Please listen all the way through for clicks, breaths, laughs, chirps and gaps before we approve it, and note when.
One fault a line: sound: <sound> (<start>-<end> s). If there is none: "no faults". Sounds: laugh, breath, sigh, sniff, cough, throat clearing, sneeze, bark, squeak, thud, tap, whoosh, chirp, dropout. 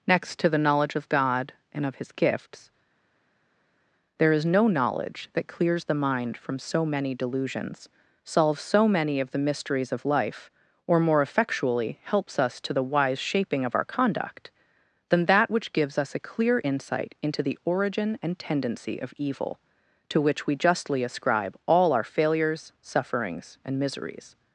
no faults